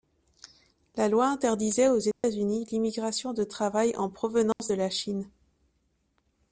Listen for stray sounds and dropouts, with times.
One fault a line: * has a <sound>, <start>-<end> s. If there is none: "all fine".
* has a dropout, 2.1-2.2 s
* has a dropout, 4.5-4.6 s